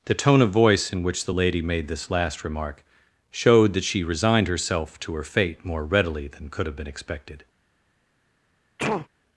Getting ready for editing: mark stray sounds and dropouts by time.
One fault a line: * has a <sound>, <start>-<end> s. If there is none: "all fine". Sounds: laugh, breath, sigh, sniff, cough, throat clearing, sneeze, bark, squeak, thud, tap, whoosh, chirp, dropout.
* has a sneeze, 8.8-9.1 s